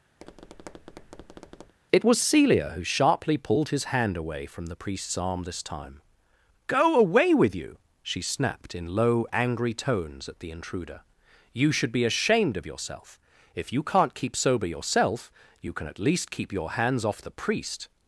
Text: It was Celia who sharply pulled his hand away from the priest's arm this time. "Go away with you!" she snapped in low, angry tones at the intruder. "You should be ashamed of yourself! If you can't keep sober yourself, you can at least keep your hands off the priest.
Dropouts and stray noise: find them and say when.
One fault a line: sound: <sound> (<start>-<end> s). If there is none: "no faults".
sound: tap (0.2-1.7 s)